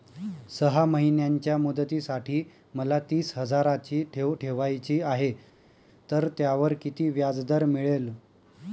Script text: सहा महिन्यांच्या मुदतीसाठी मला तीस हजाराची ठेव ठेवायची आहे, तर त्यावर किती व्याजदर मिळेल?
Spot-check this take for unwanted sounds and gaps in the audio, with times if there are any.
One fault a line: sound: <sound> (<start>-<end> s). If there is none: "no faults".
no faults